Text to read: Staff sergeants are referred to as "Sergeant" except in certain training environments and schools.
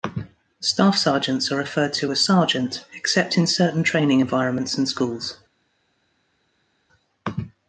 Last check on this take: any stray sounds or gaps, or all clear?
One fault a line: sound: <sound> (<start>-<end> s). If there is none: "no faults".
no faults